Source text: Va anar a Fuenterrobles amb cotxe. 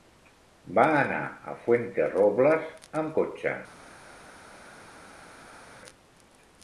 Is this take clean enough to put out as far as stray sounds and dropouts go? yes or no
yes